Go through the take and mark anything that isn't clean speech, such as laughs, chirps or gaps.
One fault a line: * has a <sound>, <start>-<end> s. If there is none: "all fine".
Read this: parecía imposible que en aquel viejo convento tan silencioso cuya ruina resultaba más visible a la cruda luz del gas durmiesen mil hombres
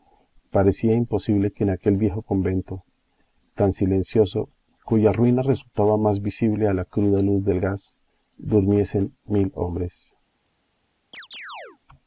* has a chirp, 11.1-11.8 s